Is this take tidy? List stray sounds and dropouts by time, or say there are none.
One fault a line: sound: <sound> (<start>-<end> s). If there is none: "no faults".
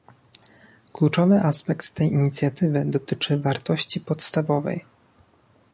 no faults